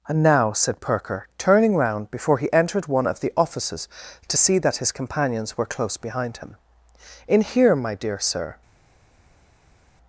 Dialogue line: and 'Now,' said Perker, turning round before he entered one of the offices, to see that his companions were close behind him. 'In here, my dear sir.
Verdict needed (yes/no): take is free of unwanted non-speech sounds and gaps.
yes